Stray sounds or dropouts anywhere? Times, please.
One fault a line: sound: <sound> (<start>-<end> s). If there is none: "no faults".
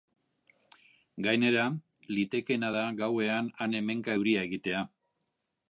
no faults